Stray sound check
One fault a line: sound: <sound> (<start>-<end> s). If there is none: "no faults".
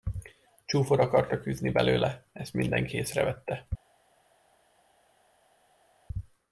no faults